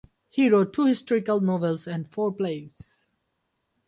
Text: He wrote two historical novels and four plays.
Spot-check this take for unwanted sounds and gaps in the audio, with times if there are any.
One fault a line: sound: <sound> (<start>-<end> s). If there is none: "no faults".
no faults